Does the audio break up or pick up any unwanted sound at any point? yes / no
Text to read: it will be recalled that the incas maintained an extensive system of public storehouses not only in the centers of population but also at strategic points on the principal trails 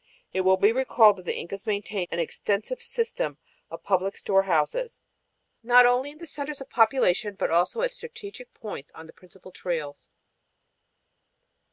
no